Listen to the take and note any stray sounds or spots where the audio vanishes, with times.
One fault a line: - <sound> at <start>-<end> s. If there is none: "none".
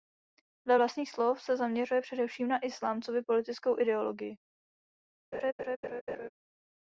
- laugh at 5.3-6.3 s